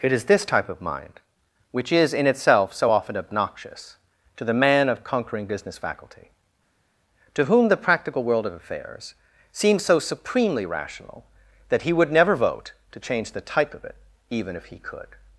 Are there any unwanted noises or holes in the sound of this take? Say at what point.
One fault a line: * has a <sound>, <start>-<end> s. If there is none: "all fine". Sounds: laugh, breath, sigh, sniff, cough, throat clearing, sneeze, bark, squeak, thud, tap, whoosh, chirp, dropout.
all fine